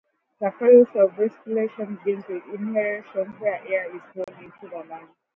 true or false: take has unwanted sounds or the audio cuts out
true